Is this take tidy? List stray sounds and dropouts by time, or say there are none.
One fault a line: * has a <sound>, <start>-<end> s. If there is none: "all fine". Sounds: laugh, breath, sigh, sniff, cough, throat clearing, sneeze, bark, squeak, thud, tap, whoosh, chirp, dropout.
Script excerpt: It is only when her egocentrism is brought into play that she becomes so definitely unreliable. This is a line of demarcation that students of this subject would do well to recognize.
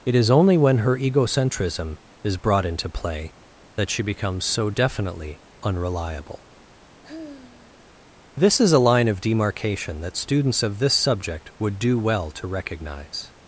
* has a sigh, 7.0-7.9 s